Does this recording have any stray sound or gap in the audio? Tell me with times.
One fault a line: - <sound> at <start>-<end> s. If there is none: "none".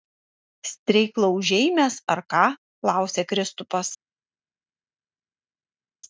none